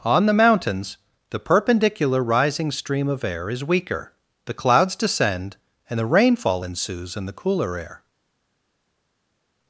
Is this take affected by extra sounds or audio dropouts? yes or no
no